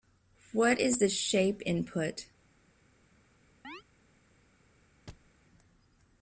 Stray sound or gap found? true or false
true